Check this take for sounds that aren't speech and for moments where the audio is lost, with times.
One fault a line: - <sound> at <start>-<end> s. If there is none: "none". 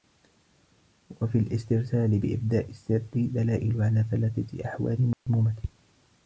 - dropout at 5.1-5.3 s